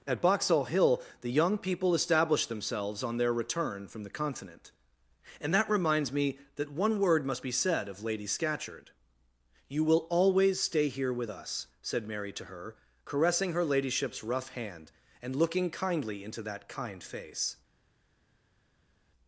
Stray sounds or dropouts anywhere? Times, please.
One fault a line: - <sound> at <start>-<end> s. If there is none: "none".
none